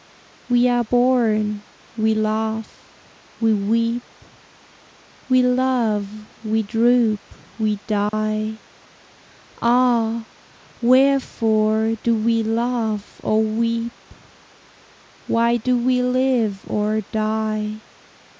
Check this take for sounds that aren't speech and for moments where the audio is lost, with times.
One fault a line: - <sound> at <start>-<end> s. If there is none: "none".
- dropout at 8.1-8.1 s